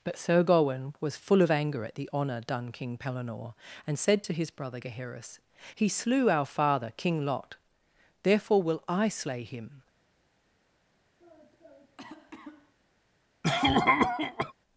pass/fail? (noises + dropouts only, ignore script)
fail